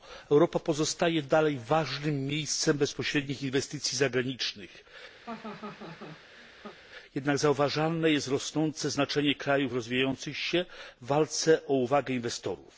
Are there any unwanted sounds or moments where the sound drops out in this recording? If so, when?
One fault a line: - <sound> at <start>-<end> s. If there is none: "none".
- laugh at 5.2-6.8 s